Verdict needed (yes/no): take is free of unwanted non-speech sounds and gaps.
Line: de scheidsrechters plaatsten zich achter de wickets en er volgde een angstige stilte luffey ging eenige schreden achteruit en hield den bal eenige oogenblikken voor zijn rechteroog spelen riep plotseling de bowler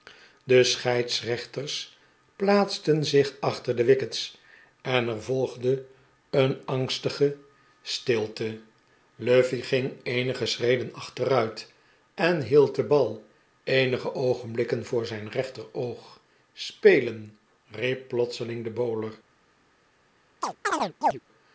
no